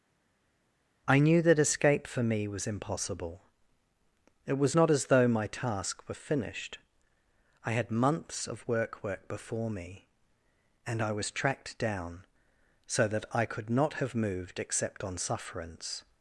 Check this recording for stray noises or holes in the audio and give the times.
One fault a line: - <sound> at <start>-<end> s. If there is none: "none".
none